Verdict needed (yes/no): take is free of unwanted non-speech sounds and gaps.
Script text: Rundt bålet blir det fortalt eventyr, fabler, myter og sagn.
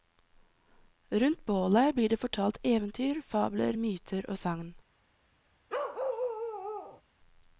no